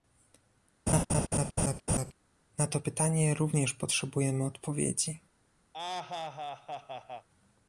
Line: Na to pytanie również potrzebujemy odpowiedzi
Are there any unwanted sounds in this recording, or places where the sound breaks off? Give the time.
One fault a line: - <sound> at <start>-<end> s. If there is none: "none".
- laugh at 0.9-2.1 s
- laugh at 5.7-7.3 s